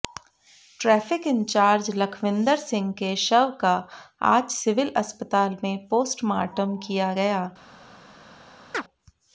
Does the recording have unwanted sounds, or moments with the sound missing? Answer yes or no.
yes